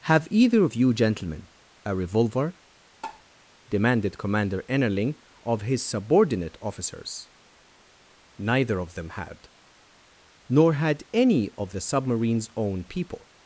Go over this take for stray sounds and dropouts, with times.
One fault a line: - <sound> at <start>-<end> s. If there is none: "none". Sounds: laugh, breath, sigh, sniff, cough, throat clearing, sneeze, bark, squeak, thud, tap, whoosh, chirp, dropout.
- tap at 3.0-3.2 s